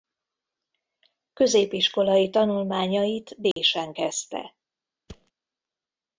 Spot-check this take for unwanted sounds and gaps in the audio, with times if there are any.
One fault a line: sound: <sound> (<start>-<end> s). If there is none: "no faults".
sound: dropout (3.5-3.6 s)
sound: thud (5.1-5.3 s)